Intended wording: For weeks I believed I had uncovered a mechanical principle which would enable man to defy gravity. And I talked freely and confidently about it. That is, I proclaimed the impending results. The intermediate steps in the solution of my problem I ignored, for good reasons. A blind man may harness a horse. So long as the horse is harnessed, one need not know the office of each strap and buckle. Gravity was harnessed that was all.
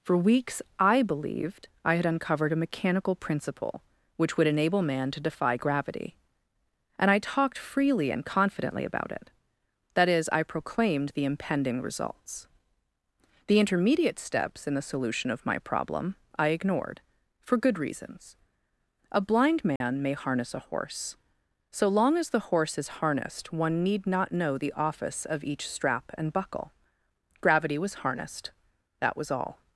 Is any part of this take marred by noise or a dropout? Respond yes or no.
yes